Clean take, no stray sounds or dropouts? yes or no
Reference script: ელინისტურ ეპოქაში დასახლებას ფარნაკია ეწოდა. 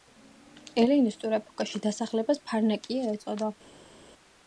yes